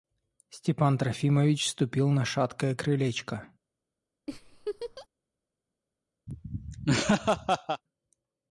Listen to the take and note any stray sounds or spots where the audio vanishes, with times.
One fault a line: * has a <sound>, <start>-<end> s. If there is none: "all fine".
* has a laugh, 4.3-5.1 s
* has a laugh, 6.3-7.8 s